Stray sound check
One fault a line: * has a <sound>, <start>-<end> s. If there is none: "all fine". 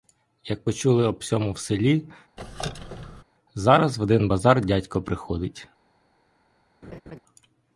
* has a squeak, 2.4-3.2 s
* has a laugh, 6.8-7.2 s